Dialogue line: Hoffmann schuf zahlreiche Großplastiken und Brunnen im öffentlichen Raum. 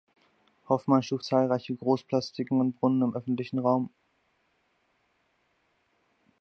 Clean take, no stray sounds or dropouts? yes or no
yes